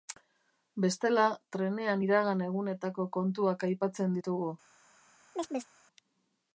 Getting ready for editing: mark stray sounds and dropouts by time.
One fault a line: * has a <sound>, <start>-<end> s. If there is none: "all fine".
* has a chirp, 5.3-5.7 s